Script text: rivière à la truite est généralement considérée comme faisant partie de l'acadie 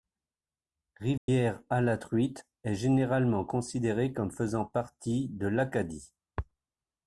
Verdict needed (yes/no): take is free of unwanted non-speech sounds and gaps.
no